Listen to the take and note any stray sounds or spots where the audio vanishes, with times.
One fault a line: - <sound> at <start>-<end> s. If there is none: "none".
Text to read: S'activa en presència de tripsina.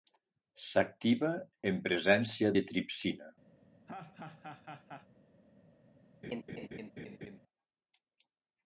- laugh at 3.9-5.1 s
- laugh at 6.2-7.4 s